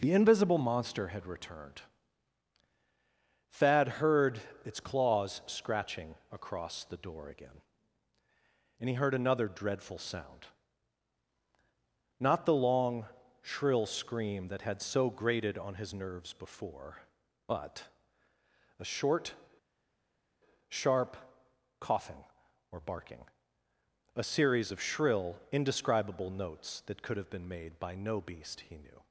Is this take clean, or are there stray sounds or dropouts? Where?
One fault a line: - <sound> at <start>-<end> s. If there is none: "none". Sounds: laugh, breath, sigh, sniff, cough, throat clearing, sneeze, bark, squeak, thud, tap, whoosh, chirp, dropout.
none